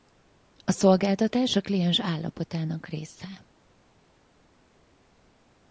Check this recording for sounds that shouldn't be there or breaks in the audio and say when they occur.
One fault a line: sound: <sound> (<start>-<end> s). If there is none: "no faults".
no faults